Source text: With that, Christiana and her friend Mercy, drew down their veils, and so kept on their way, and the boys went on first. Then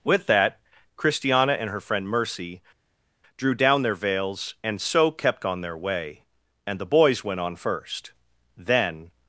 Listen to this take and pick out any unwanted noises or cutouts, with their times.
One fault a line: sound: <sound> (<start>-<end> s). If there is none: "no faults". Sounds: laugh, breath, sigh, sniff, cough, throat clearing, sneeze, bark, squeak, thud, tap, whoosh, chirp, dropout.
no faults